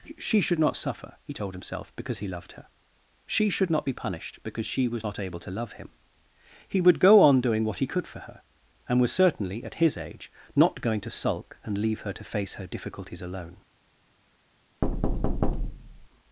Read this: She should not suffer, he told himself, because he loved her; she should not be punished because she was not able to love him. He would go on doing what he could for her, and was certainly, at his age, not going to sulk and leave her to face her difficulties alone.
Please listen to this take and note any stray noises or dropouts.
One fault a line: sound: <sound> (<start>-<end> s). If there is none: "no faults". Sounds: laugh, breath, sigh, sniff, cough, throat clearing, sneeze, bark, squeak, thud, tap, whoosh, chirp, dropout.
sound: thud (14.8-16.1 s)